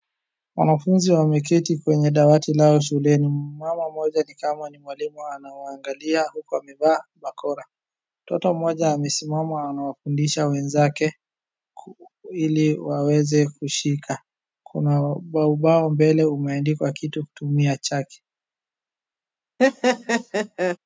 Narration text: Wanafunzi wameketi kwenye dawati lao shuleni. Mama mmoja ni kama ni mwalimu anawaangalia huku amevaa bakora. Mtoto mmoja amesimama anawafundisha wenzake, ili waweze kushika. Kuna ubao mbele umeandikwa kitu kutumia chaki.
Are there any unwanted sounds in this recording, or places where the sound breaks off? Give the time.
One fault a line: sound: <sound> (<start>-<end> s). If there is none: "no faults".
sound: laugh (19.6-20.8 s)